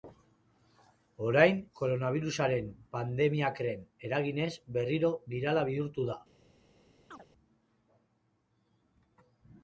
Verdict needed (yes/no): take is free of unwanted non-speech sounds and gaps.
no